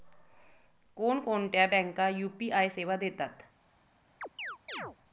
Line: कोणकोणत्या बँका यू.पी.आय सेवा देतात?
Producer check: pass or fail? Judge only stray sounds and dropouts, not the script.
fail